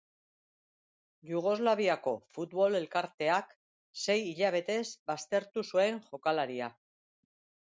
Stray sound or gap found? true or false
false